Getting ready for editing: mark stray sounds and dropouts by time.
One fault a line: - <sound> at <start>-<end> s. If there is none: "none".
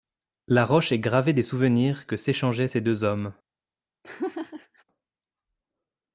- laugh at 4.0-4.8 s